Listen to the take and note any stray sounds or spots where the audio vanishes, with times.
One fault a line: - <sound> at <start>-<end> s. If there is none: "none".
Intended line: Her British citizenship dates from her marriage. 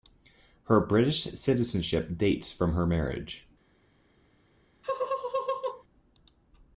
- laugh at 4.8-5.8 s